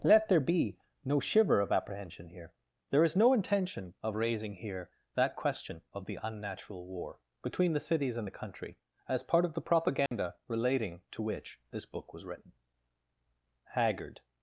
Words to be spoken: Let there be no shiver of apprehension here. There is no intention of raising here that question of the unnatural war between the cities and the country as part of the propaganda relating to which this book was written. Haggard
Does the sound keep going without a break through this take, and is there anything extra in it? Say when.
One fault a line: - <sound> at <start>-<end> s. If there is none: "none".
- dropout at 10.1-10.1 s